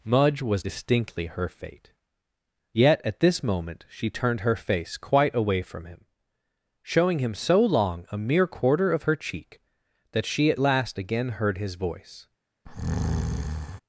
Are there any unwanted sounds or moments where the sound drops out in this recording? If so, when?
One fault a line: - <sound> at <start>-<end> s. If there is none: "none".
- breath at 12.7-13.8 s